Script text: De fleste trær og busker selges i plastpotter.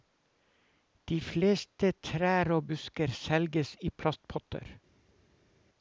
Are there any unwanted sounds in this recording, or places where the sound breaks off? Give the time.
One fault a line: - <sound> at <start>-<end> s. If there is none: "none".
none